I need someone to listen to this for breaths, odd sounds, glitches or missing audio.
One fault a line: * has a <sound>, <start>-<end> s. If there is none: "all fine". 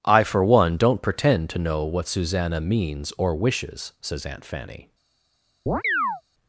* has a chirp, 5.7-6.2 s